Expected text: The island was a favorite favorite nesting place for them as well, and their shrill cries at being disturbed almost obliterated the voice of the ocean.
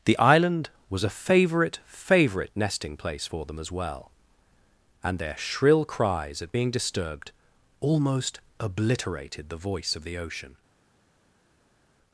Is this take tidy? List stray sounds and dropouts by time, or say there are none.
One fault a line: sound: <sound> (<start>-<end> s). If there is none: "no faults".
no faults